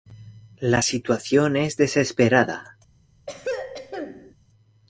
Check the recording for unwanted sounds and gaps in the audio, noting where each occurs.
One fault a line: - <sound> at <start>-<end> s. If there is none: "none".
- throat clearing at 3.3-4.3 s